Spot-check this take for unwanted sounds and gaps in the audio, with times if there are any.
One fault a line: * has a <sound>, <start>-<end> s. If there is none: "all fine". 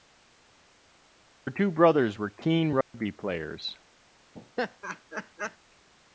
* has a dropout, 2.8-2.9 s
* has a laugh, 4.3-5.6 s